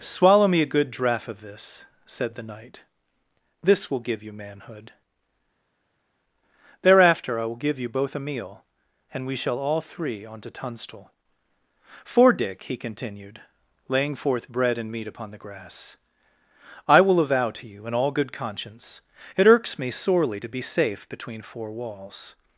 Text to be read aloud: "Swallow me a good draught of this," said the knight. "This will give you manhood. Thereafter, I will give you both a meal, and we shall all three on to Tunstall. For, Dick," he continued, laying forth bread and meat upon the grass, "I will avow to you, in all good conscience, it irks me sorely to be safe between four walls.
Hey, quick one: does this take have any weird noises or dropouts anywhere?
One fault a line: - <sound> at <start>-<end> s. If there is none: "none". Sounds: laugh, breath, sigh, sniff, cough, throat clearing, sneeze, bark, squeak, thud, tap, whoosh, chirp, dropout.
none